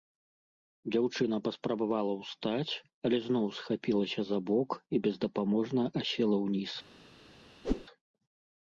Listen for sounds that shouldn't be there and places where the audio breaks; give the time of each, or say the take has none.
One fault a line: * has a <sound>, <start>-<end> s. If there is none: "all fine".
* has a whoosh, 7.6-7.9 s